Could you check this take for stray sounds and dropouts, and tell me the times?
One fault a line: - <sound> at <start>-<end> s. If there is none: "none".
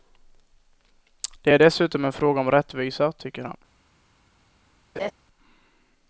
- laugh at 5.0-5.1 s